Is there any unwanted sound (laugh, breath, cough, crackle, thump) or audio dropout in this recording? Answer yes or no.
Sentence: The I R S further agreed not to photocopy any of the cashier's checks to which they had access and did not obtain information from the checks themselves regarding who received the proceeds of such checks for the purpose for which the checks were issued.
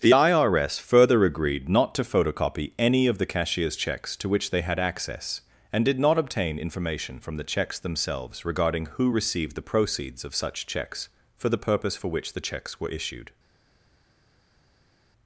no